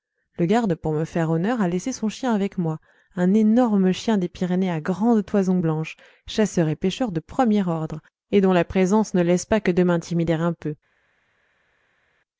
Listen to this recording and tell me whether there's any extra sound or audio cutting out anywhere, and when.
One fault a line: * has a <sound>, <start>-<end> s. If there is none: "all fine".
all fine